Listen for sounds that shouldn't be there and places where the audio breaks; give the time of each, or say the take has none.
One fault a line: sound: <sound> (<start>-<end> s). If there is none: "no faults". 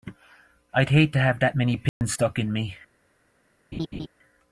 sound: dropout (1.9-2.0 s)
sound: laugh (3.7-4.1 s)